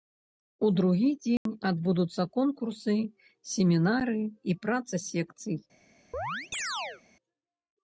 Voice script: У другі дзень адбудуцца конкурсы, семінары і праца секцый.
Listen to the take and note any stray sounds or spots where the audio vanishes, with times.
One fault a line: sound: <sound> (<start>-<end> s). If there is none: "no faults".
sound: dropout (1.4-1.5 s)
sound: chirp (6.1-7.0 s)